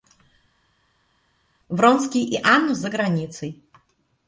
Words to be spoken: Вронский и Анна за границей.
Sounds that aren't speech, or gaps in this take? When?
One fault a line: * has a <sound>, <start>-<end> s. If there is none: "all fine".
all fine